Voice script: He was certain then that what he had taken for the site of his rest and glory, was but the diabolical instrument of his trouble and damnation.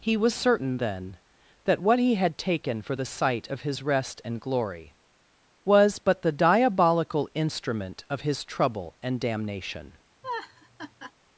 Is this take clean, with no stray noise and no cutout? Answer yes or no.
no